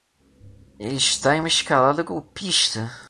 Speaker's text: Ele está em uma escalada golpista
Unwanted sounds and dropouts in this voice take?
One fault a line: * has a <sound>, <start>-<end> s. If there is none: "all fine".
all fine